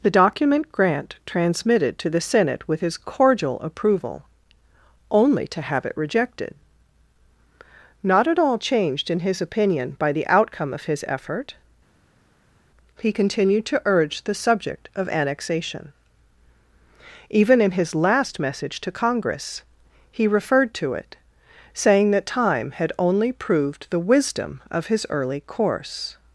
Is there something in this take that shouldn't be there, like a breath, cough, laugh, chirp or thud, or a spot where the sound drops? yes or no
no